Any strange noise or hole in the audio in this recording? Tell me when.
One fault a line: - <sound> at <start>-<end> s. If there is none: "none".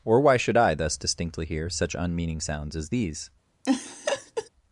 - laugh at 3.6-4.5 s